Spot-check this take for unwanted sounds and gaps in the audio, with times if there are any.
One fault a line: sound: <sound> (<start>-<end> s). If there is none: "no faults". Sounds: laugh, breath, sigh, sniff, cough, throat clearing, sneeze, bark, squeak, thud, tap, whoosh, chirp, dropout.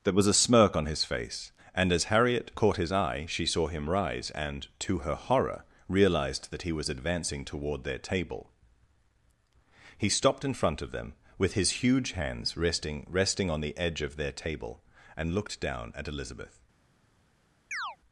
sound: chirp (17.7-18.0 s)